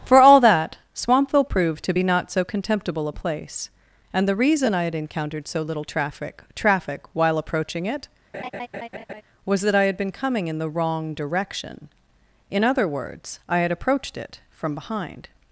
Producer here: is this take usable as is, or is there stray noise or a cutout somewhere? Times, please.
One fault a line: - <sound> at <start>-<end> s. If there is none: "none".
- laugh at 8.3-9.2 s